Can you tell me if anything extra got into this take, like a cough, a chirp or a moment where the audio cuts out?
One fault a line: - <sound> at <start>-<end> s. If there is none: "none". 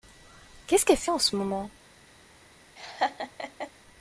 - laugh at 2.8-3.7 s